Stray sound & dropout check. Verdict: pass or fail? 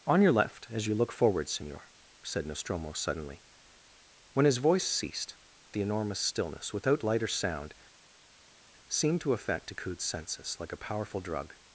pass